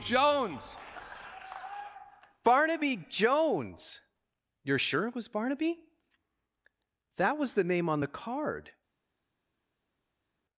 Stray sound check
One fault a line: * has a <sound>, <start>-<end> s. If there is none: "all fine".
all fine